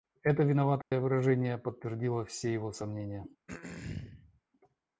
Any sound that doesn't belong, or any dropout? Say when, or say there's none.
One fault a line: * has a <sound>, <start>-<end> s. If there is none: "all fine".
* has a dropout, 0.8-0.9 s
* has a throat clearing, 3.5-4.4 s